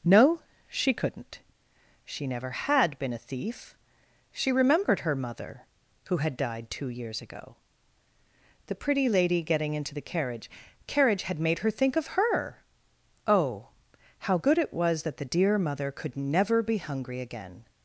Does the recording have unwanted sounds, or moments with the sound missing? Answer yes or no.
no